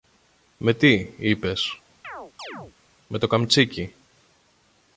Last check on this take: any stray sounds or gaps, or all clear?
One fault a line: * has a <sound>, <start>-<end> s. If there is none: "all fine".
* has a chirp, 2.0-2.7 s